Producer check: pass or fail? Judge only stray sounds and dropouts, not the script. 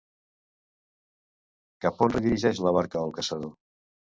pass